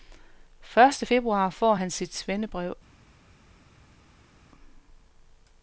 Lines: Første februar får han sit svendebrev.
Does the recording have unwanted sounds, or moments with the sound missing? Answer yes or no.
no